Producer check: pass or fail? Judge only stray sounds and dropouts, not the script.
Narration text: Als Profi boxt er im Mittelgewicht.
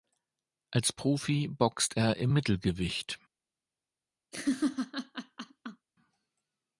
fail